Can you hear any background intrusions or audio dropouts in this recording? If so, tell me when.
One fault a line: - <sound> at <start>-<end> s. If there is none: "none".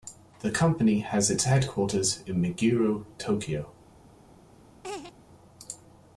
- laugh at 4.8-5.1 s